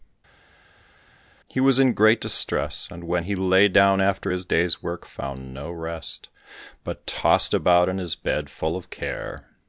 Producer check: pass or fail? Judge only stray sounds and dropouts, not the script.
pass